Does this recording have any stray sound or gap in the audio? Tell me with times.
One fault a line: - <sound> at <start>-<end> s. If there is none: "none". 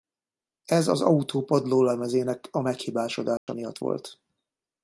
- dropout at 3.4-3.5 s